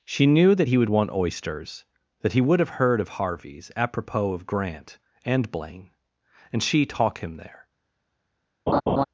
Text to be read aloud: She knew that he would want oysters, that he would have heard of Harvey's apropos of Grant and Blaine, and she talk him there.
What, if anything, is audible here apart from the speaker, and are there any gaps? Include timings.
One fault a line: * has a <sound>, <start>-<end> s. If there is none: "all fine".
* has a laugh, 8.7-9.0 s